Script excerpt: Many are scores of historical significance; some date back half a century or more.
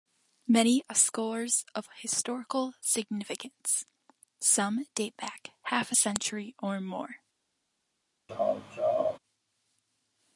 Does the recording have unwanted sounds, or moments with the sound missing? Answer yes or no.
yes